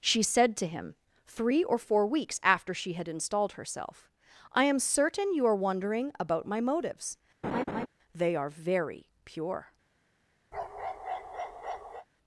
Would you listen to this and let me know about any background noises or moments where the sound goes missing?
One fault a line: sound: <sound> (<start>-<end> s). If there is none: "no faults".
sound: laugh (7.4-7.9 s)
sound: bark (10.5-12.1 s)